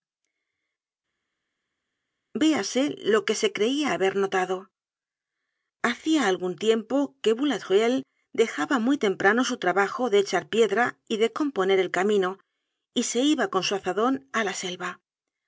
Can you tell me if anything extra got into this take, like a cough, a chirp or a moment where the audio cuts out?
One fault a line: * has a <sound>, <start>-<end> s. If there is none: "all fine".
all fine